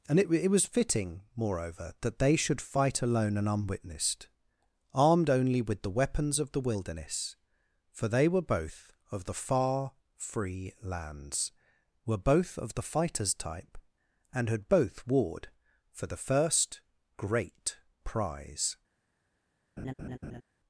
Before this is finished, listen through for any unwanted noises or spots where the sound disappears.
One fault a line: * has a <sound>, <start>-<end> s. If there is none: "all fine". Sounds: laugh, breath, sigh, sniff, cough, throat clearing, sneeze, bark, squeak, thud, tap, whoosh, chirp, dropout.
* has a laugh, 19.8-20.4 s